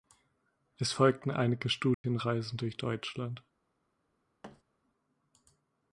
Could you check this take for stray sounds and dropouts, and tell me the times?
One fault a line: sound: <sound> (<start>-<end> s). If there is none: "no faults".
sound: dropout (1.9-2.0 s)
sound: thud (4.4-4.6 s)